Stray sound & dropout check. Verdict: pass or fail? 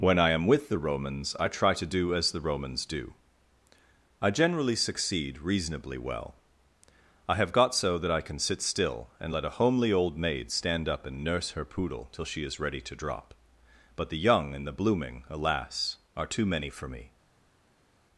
pass